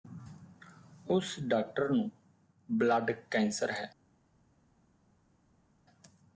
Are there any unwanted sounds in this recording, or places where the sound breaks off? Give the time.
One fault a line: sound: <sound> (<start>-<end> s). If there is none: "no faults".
no faults